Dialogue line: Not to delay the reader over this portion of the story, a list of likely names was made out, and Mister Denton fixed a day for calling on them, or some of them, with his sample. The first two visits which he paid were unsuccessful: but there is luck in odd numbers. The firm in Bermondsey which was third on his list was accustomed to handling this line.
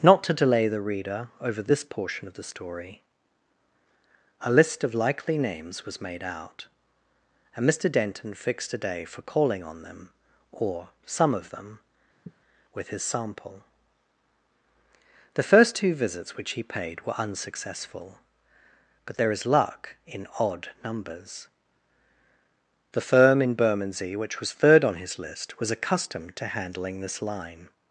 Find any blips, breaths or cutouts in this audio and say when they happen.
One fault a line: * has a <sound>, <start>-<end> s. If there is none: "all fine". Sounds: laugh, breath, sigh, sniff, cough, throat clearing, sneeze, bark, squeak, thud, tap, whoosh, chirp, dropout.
* has a sigh, 12.2-12.4 s